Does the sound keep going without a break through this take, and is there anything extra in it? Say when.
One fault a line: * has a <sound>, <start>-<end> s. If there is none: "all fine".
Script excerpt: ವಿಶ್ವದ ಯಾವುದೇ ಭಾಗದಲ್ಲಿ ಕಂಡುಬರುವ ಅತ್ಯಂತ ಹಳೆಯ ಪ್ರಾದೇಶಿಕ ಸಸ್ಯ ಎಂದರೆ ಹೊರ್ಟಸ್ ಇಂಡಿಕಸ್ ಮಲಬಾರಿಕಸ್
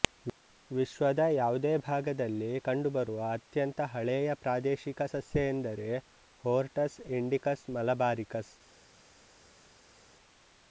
all fine